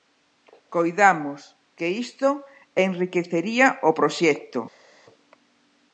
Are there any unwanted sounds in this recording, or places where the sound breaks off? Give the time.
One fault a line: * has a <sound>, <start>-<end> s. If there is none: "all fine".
all fine